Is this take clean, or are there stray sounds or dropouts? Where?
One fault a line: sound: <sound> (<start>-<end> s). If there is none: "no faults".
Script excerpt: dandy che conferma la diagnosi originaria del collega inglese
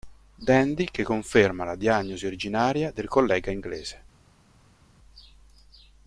no faults